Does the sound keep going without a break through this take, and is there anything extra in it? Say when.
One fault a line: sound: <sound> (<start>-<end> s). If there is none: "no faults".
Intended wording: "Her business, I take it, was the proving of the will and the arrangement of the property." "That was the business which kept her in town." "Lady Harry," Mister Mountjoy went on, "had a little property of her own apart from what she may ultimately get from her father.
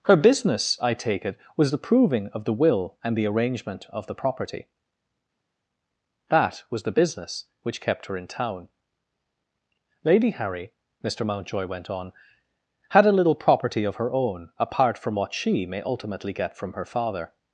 no faults